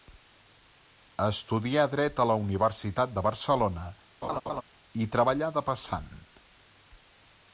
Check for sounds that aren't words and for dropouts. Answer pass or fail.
fail